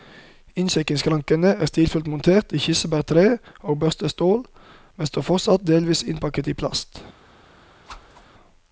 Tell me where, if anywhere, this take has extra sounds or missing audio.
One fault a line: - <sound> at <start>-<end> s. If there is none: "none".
- whoosh at 7.9-8.3 s